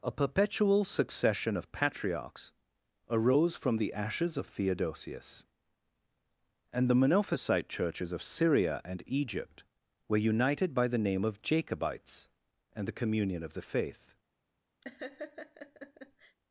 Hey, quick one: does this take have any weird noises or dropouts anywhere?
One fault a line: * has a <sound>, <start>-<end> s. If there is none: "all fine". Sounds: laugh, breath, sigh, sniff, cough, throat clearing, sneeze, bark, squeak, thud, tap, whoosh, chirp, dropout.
* has a laugh, 14.8-16.4 s